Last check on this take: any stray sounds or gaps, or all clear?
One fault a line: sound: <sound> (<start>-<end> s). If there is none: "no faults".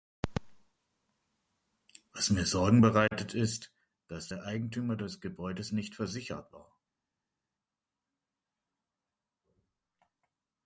no faults